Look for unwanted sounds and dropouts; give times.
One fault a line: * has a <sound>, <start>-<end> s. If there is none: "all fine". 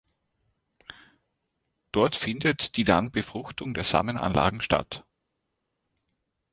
all fine